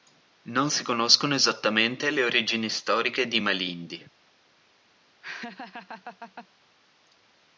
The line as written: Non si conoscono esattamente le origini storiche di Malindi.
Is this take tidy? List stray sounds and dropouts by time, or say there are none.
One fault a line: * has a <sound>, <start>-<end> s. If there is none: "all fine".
* has a laugh, 5.2-6.5 s